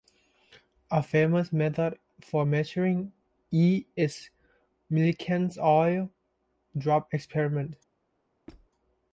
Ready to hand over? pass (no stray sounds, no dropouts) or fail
fail